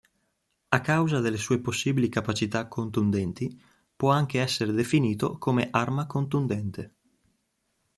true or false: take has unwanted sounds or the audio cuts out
false